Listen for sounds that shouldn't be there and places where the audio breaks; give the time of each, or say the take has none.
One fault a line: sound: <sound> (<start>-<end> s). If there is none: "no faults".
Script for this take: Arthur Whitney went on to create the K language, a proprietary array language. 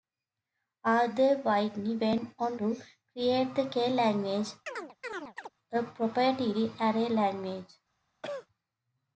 sound: chirp (4.7-5.5 s)
sound: cough (8.2-8.5 s)